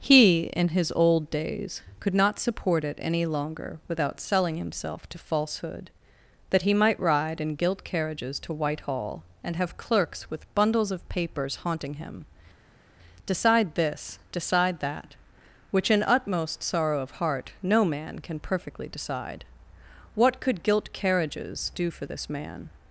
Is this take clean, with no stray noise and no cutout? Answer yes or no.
yes